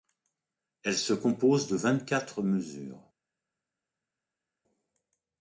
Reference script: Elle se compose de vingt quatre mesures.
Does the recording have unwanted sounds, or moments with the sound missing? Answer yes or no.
no